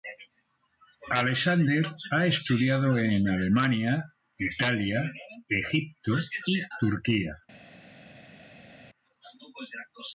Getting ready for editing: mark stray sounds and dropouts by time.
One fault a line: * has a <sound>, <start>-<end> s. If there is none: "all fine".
all fine